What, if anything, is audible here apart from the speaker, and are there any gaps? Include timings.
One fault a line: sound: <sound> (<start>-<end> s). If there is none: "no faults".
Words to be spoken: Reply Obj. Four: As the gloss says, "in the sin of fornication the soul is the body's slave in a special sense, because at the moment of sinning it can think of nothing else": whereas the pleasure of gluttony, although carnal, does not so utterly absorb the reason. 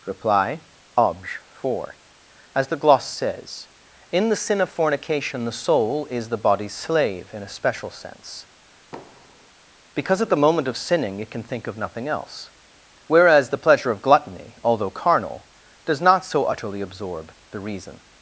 sound: thud (8.9-9.5 s)